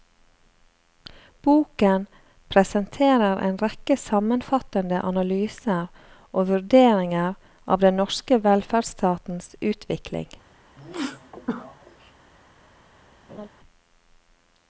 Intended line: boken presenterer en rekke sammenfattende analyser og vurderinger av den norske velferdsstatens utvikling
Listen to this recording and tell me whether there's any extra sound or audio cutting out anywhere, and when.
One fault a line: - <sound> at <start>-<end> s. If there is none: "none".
- sneeze at 10.8-12.1 s
- laugh at 13.3-13.5 s